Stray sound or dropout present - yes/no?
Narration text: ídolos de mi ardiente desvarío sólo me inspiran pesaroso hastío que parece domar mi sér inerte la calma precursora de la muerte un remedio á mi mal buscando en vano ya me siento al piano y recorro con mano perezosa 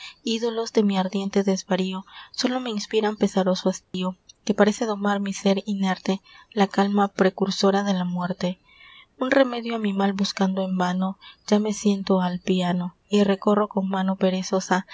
yes